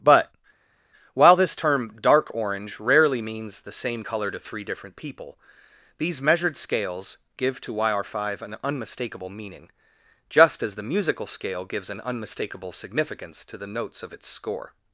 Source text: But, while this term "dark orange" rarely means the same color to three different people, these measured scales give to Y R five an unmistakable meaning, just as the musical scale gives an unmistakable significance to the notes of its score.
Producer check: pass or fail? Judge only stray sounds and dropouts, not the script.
pass